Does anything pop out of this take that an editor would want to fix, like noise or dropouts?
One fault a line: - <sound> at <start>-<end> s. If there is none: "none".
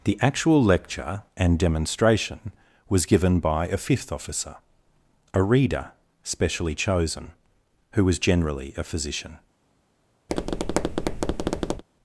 - tap at 10.3-11.8 s